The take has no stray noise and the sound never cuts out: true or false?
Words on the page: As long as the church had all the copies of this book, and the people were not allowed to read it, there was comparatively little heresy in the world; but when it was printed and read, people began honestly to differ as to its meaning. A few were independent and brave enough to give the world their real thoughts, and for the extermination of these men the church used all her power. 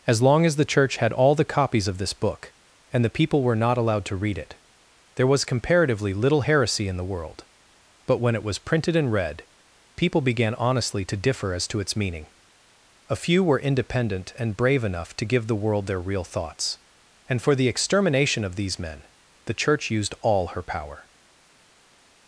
true